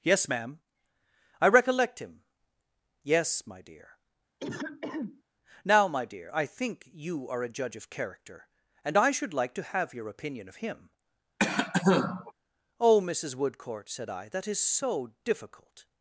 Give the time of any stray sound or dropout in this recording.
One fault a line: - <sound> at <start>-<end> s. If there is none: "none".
- throat clearing at 4.4-5.2 s
- cough at 11.4-12.3 s